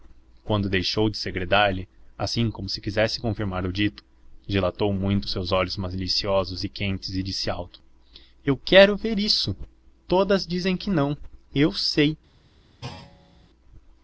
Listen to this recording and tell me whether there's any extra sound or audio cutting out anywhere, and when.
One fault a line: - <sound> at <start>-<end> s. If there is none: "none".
- thud at 12.8-13.5 s